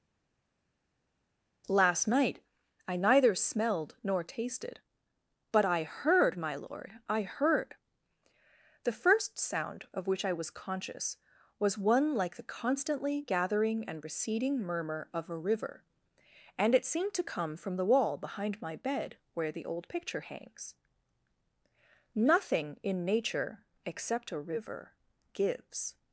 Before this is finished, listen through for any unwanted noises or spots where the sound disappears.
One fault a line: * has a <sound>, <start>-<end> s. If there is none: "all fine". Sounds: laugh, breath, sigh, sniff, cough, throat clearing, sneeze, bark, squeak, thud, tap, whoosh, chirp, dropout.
all fine